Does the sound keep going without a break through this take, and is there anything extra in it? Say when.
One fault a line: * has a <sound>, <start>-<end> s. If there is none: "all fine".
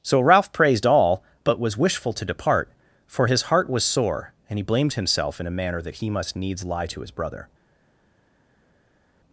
all fine